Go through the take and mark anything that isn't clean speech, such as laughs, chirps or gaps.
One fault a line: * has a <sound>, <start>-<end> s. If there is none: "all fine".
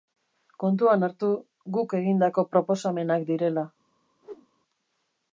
* has a whoosh, 4.2-4.5 s